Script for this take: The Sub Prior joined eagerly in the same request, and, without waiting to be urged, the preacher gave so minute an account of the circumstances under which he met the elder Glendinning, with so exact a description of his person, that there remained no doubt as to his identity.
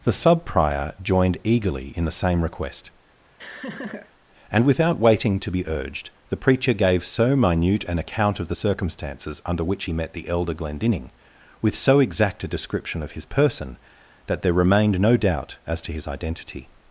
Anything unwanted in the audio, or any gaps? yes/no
yes